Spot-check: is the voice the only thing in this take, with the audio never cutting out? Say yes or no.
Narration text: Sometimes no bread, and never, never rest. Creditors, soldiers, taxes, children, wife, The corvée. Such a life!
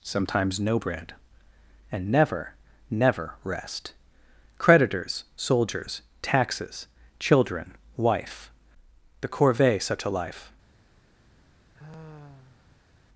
no